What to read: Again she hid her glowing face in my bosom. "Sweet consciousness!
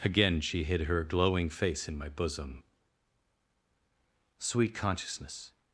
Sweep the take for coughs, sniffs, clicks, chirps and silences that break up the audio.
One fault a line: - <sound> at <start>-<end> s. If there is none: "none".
none